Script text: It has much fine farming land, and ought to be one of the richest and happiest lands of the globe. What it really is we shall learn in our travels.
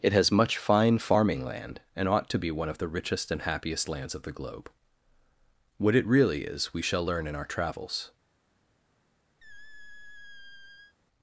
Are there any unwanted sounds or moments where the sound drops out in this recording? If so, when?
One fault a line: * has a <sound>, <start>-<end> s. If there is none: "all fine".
* has a squeak, 9.4-11.0 s